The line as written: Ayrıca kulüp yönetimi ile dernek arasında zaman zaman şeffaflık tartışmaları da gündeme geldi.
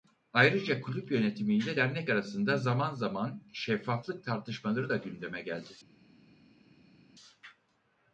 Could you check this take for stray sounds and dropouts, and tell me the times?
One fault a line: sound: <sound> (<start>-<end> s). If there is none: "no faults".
no faults